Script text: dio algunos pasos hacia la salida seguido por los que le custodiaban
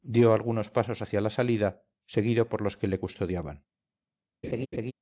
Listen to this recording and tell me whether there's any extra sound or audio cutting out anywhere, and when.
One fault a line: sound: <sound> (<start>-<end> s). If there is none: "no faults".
sound: laugh (4.4-4.9 s)